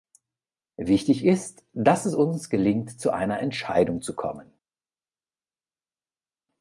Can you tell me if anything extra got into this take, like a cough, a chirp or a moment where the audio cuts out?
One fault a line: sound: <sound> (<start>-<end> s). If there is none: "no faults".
no faults